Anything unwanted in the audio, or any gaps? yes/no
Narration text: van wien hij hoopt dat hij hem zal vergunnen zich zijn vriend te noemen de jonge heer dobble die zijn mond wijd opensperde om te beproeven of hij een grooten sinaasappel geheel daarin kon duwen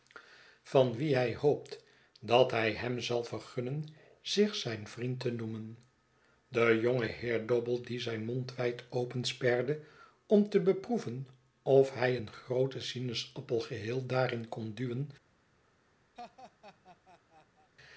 yes